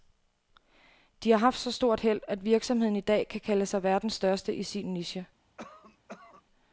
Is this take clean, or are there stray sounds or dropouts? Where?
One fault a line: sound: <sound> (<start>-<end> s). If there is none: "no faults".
sound: cough (5.6-6.4 s)